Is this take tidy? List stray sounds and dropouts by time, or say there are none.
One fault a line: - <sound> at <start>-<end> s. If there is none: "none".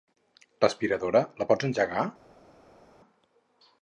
none